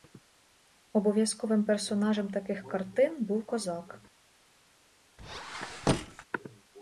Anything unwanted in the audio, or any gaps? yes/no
yes